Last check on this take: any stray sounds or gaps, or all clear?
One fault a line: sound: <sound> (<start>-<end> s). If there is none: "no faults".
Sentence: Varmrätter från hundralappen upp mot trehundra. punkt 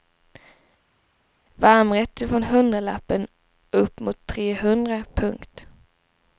no faults